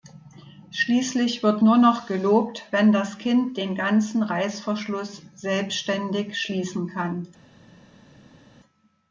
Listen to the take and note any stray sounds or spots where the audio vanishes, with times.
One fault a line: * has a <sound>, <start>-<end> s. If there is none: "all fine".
all fine